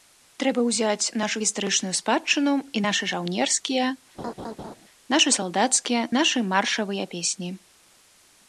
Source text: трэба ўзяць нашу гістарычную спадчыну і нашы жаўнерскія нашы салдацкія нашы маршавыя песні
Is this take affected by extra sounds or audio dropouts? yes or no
yes